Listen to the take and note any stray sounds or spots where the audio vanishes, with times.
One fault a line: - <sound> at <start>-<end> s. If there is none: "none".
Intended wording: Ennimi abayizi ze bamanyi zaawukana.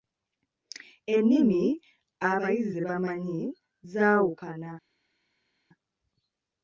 none